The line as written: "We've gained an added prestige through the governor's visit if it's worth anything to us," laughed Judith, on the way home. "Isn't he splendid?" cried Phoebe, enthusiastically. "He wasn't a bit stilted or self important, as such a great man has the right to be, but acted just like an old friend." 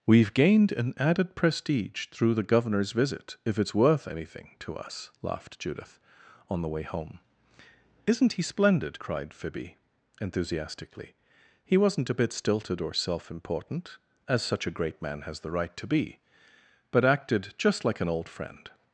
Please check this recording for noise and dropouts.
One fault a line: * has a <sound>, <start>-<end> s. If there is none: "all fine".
all fine